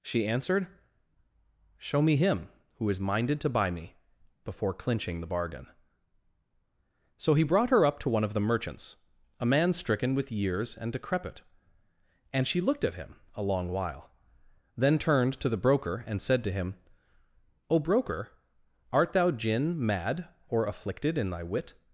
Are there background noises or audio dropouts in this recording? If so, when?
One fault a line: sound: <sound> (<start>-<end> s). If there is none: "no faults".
no faults